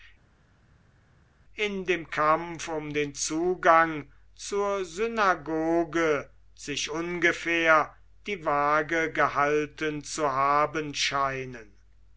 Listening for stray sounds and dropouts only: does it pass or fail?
pass